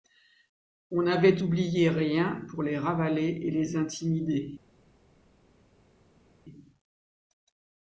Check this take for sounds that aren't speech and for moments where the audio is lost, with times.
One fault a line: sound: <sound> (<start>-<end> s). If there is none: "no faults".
no faults